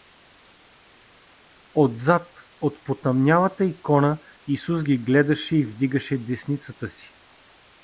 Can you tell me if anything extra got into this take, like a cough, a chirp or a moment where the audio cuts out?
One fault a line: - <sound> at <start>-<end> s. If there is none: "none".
none